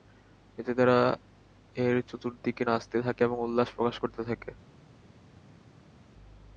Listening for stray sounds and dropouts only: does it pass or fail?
pass